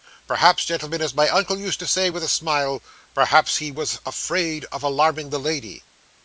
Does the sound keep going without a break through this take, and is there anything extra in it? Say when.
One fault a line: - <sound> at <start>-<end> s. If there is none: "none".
none